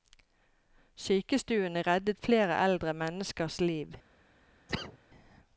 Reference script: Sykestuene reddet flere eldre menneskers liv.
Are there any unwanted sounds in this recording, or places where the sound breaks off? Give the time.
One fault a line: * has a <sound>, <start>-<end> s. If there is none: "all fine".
* has a cough, 4.7-5.0 s